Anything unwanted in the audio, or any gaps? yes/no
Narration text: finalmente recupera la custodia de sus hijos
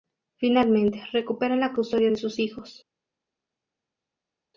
no